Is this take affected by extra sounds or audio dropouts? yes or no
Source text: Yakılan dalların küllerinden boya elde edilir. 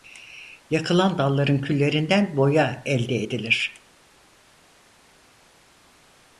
no